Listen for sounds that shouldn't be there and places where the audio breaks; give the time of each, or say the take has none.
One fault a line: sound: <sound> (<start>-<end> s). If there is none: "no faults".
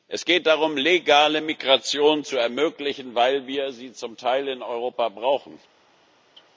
no faults